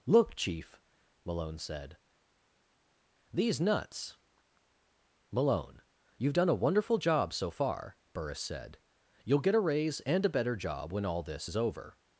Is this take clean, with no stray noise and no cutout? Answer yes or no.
yes